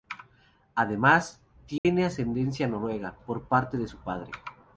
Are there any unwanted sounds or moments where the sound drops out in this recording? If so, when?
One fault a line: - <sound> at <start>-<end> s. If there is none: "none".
- dropout at 1.8-1.9 s